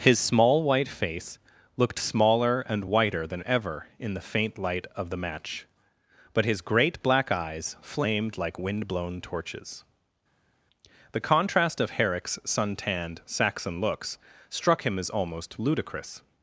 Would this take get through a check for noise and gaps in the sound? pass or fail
pass